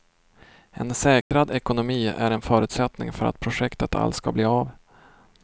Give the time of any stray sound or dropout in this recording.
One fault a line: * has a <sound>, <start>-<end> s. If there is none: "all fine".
* has a dropout, 1.2-1.3 s